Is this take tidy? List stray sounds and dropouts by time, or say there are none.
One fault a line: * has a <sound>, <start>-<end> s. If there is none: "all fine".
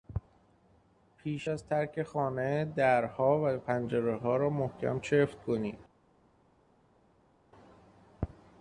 all fine